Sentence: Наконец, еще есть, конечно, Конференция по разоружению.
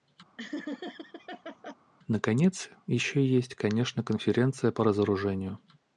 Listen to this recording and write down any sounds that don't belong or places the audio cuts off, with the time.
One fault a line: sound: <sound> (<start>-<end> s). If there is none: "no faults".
sound: laugh (0.4-1.8 s)